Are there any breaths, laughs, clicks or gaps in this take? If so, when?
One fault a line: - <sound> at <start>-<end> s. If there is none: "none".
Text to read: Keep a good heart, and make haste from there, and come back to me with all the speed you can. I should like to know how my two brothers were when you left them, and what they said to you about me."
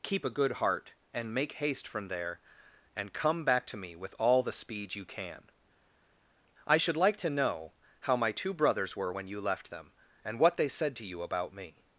none